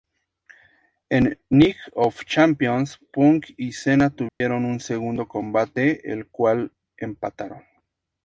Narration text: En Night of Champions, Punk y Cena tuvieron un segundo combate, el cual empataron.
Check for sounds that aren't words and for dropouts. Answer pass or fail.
fail